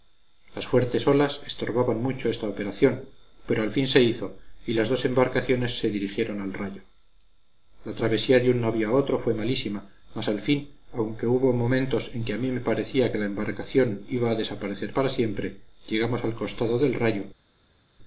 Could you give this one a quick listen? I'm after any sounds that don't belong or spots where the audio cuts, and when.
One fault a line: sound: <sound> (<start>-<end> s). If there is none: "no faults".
no faults